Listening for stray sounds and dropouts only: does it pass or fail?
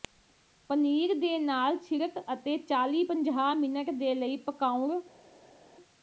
pass